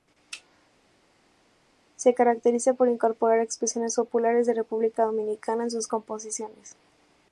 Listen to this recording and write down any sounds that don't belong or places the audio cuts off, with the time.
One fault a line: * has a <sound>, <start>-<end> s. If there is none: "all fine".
all fine